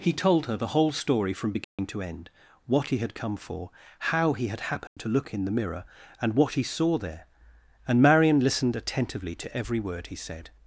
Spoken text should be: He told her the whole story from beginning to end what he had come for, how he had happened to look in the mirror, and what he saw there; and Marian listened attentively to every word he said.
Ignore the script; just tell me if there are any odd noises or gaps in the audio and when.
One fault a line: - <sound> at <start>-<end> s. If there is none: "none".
- dropout at 1.6-1.8 s
- dropout at 4.9-5.0 s